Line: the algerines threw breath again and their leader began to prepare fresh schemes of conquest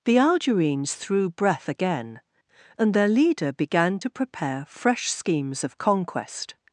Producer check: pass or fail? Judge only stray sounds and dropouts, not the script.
pass